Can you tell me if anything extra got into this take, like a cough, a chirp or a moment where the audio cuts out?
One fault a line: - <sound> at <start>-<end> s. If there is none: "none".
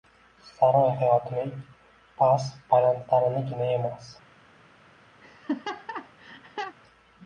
- laugh at 5.2-6.8 s